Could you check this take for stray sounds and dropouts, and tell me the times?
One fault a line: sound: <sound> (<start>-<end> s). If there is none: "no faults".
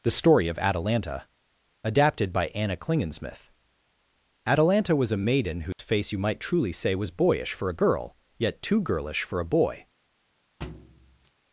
sound: dropout (5.7-5.8 s)
sound: thud (10.6-11.3 s)